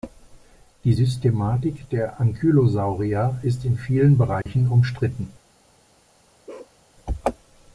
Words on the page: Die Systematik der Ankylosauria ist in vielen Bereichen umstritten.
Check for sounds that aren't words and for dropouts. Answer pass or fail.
fail